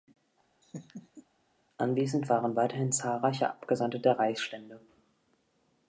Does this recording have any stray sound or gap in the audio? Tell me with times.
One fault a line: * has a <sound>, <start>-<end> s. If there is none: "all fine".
* has a laugh, 0.6-1.3 s